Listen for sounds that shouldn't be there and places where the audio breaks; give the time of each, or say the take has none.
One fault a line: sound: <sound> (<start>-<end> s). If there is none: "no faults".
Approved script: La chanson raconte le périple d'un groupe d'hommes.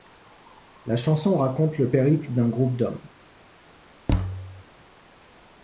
sound: thud (4.1-4.6 s)